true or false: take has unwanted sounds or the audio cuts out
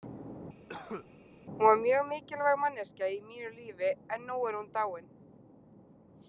true